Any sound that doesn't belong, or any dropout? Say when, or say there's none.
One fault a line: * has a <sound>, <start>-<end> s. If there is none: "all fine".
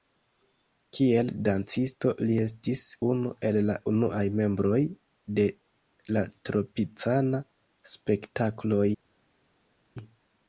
all fine